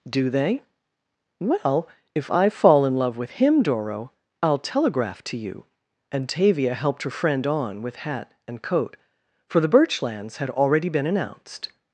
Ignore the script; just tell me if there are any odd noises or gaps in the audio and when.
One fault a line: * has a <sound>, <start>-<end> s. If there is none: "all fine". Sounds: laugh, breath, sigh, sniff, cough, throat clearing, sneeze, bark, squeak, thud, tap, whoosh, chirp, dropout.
all fine